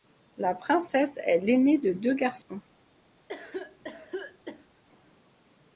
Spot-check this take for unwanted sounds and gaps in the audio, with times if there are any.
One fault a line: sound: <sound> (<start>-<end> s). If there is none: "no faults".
sound: dropout (2.4-2.5 s)
sound: cough (3.3-4.8 s)